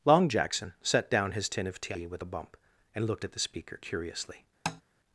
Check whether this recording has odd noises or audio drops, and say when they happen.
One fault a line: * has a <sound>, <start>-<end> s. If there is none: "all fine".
* has a tap, 4.7-4.8 s